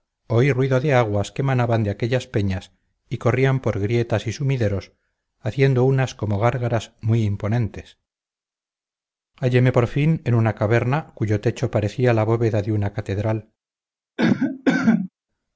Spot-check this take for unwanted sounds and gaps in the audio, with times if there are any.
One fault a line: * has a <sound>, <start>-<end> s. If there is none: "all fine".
* has a cough, 14.2-15.1 s